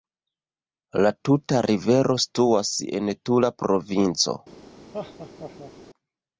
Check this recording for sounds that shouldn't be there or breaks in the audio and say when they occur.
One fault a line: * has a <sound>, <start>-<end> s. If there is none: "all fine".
* has a laugh, 4.9-5.7 s